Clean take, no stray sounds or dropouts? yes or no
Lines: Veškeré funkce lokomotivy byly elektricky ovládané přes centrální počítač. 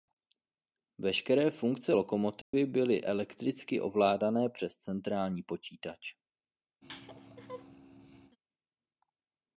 no